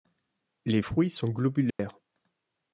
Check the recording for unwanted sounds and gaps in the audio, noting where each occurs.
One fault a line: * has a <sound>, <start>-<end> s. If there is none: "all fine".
* has a dropout, 1.7-1.8 s